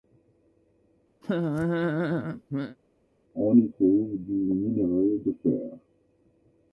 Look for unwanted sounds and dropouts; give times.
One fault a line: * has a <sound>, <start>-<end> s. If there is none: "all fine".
* has a laugh, 1.2-2.8 s